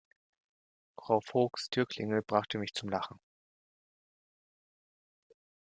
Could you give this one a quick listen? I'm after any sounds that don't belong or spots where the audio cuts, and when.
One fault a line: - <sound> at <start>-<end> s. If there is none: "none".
none